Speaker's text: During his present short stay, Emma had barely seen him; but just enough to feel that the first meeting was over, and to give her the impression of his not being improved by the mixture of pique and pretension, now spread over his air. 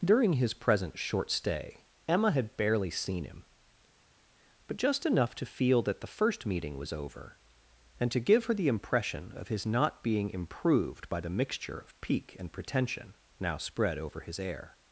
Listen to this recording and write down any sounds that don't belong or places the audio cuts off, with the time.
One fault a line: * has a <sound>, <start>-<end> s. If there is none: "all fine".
all fine